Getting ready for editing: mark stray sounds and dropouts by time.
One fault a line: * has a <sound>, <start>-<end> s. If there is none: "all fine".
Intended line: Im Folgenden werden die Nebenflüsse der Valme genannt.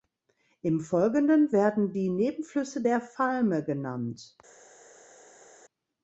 all fine